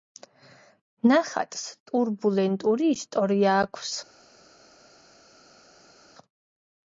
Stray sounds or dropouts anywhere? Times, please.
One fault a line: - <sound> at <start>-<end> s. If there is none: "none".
none